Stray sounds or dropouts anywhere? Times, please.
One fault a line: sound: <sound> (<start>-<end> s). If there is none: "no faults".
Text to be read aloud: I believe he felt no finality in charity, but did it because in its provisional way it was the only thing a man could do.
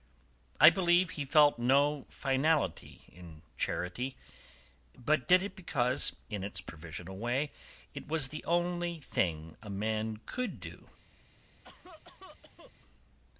sound: cough (11.6-12.7 s)